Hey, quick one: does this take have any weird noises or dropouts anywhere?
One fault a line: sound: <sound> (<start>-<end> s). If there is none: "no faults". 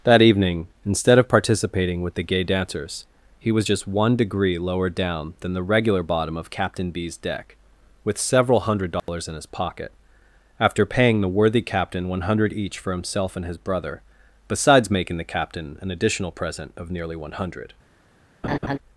sound: dropout (9.0-9.1 s)
sound: laugh (18.4-18.8 s)